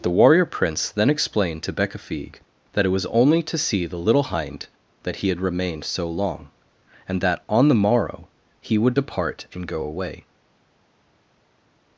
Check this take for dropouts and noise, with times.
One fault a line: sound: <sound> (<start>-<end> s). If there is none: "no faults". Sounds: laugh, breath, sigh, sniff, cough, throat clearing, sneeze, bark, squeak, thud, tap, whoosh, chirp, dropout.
no faults